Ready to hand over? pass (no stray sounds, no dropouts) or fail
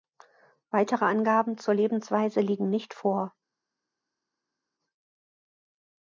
pass